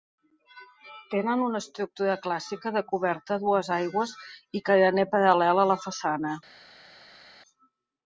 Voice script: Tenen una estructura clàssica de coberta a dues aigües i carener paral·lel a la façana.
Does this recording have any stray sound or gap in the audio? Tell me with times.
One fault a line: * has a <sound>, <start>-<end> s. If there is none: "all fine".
all fine